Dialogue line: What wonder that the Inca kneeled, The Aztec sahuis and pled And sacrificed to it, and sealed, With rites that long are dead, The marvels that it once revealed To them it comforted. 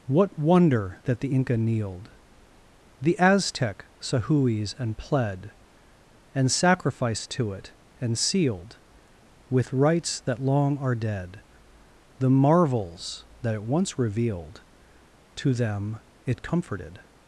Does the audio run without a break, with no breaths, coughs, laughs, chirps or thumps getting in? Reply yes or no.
yes